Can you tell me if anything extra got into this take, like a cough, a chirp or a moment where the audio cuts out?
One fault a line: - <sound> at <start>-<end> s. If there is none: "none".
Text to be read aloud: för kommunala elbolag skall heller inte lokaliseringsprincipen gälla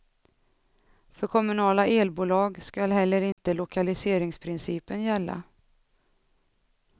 - dropout at 3.3-3.4 s